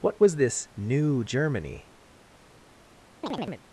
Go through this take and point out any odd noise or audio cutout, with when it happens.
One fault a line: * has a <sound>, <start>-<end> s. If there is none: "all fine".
* has a chirp, 3.2-3.6 s